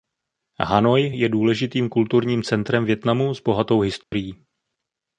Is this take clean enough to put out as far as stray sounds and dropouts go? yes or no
no